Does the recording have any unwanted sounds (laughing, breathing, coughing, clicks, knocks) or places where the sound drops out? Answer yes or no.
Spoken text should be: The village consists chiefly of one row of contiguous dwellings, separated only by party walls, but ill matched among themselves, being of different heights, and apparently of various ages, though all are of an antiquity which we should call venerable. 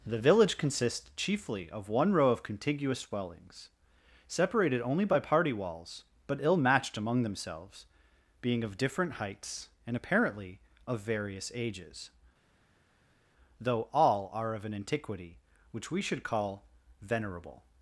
no